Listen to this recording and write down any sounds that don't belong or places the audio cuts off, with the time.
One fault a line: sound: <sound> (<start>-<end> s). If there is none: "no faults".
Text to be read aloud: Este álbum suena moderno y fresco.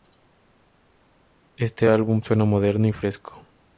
no faults